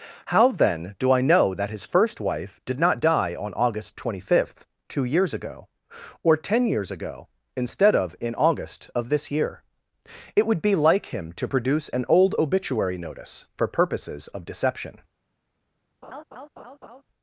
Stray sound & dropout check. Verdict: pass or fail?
fail